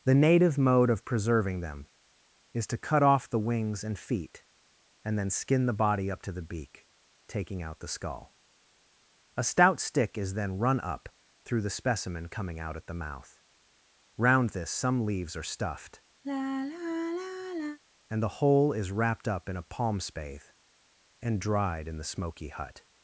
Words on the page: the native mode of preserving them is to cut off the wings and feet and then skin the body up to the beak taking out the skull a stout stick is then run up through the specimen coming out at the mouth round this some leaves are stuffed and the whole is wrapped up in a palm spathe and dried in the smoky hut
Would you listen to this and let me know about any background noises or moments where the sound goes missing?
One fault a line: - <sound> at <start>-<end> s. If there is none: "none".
- sigh at 16.2-17.8 s